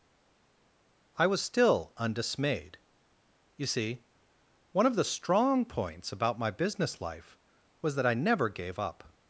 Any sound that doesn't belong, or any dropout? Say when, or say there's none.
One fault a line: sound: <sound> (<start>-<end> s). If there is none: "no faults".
no faults